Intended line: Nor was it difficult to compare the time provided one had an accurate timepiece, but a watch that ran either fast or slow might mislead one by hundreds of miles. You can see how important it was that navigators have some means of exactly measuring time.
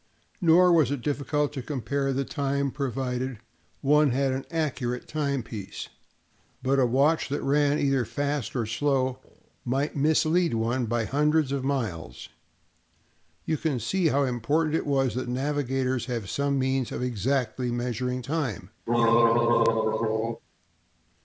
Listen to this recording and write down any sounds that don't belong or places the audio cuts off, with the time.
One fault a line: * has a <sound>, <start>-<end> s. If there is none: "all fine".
* has a throat clearing, 18.9-20.4 s